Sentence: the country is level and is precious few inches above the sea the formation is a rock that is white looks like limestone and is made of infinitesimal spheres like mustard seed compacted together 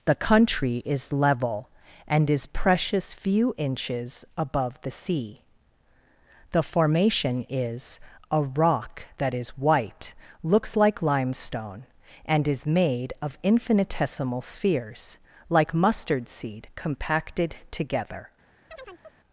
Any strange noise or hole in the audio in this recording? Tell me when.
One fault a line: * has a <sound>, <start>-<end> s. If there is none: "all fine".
* has a chirp, 18.7-19.2 s